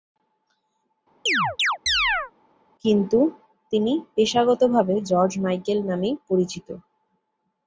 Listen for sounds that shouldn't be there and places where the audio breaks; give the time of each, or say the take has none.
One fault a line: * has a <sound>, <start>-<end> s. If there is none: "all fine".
* has a chirp, 1.3-2.3 s